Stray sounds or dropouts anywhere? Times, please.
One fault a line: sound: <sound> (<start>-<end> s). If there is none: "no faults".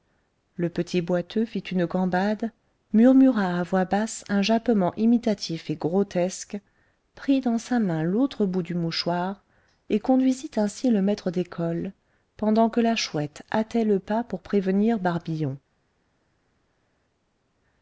no faults